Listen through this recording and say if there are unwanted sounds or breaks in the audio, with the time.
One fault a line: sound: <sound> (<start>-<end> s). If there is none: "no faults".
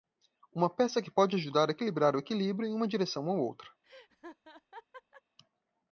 sound: laugh (3.8-5.2 s)